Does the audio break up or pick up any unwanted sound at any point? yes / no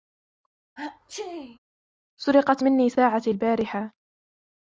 yes